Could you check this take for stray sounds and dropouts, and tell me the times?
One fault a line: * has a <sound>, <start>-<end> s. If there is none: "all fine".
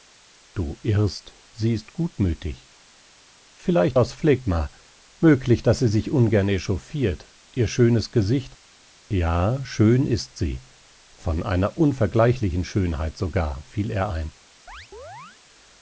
* has a chirp, 14.7-15.4 s